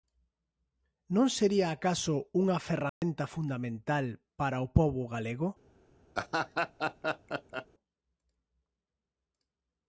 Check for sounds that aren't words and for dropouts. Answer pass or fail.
fail